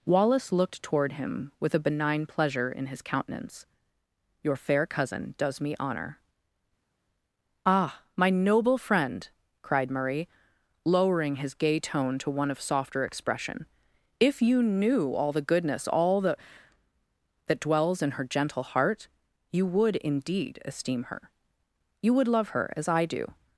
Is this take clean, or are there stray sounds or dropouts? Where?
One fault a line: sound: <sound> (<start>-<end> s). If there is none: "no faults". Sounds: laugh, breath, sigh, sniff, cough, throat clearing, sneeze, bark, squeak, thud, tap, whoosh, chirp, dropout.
no faults